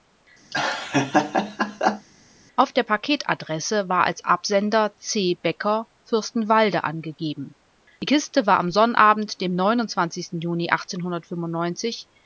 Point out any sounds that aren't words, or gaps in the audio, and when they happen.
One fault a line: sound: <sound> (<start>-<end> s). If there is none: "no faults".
sound: laugh (0.5-2.1 s)